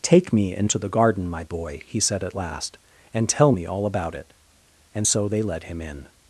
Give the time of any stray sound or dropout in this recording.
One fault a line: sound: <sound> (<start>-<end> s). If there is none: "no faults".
no faults